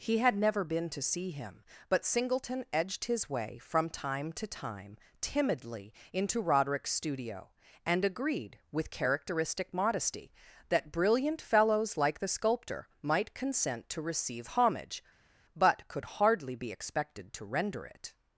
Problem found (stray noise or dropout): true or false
false